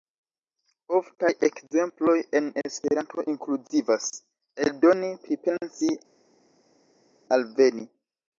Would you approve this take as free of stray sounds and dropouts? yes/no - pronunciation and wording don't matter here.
yes